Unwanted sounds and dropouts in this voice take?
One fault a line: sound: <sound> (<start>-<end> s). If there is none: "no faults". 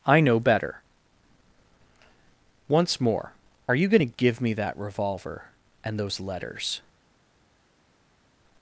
no faults